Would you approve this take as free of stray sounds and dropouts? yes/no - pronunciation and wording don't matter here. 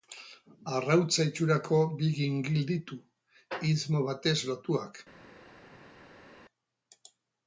yes